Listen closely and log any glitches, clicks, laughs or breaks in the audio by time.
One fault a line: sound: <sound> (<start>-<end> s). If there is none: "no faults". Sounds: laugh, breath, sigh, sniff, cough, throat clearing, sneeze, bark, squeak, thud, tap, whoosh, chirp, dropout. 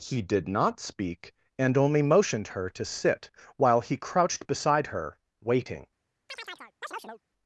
sound: chirp (6.3-7.2 s)